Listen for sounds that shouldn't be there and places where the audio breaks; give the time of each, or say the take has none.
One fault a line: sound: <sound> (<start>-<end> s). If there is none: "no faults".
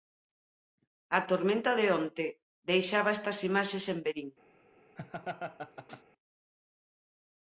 sound: laugh (5.0-6.0 s)